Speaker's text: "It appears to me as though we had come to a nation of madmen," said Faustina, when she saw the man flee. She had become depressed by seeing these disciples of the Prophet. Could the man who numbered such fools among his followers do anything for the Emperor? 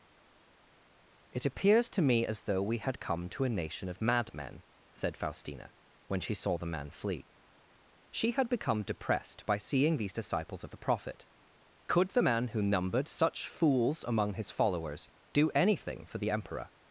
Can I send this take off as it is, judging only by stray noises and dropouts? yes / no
yes